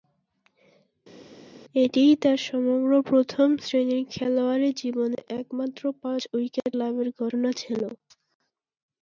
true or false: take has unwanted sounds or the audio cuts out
false